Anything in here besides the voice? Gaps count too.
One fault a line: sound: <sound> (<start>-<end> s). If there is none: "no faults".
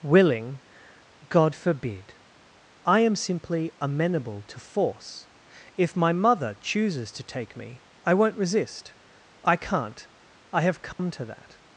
sound: dropout (10.9-11.0 s)